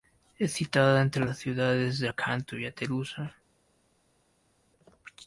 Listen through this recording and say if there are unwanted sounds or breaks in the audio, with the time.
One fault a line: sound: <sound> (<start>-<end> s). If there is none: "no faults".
no faults